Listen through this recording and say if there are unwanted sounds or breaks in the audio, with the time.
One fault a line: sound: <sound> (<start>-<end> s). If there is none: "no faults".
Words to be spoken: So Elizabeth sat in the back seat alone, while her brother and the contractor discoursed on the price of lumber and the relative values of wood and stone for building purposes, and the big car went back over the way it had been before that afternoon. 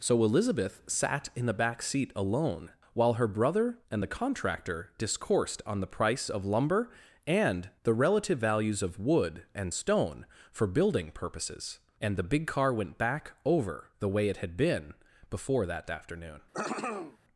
sound: throat clearing (16.5-17.2 s)